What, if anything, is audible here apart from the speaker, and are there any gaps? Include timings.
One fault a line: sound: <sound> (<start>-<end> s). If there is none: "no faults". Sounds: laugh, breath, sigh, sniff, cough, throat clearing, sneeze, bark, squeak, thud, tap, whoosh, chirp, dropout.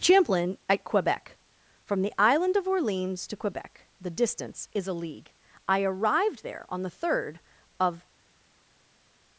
no faults